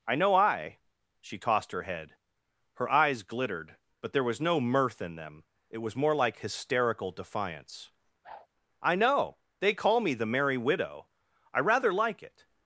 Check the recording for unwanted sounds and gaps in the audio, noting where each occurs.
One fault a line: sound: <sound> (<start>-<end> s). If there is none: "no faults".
sound: whoosh (8.2-8.5 s)